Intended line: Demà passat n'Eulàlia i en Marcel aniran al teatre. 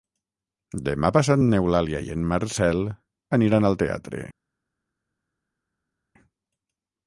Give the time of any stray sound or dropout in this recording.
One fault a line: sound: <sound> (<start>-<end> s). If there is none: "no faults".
no faults